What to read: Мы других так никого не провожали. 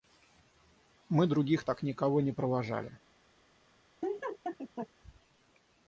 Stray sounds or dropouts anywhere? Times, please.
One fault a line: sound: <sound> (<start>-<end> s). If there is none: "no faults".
sound: laugh (4.0-4.9 s)